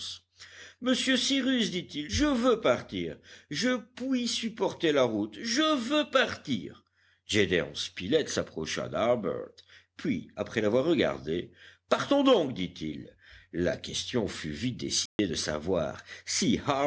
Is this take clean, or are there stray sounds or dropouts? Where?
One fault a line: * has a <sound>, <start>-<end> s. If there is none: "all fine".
* has a dropout, 15.1-15.2 s